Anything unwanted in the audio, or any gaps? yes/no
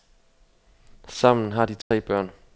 yes